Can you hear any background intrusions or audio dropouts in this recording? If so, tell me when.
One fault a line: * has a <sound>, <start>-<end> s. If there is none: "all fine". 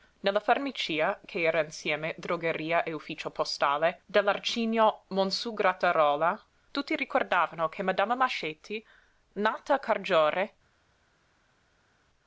all fine